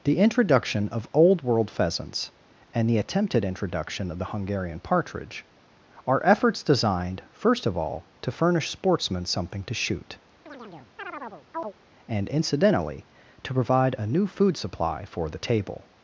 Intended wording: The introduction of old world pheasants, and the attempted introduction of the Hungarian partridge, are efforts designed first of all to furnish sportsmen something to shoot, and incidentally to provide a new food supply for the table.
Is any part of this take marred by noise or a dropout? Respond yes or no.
yes